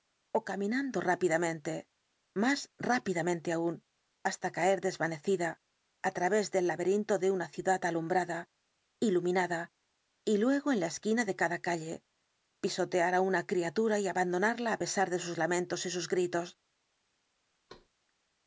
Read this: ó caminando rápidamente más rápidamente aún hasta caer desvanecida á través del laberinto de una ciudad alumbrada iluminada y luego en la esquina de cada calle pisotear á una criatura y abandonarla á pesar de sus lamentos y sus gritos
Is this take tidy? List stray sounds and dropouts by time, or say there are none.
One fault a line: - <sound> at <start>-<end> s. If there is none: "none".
- thud at 17.7-17.9 s